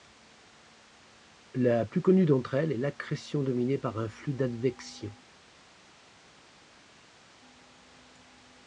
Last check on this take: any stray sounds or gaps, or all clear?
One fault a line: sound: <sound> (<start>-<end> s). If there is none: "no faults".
no faults